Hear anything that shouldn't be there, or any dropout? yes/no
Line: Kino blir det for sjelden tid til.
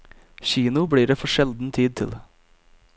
no